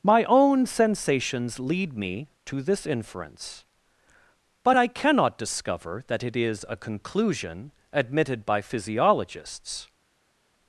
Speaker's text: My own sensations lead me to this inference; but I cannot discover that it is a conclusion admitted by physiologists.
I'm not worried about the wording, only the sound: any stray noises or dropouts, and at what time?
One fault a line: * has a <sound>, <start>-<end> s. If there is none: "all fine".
all fine